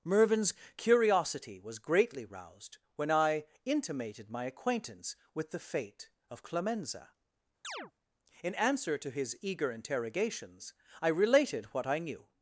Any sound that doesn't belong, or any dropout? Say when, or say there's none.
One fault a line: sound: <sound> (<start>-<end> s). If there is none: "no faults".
sound: chirp (7.6-7.9 s)